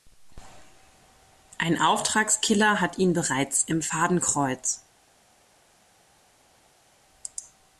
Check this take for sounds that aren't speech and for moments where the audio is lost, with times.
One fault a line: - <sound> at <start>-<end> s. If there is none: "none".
none